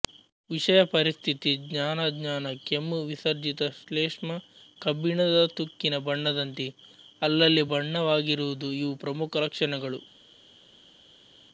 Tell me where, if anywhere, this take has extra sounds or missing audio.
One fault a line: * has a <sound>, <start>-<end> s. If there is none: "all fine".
all fine